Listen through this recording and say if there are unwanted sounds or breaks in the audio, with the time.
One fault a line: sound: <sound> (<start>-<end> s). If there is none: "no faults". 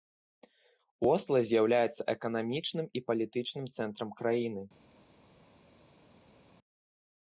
no faults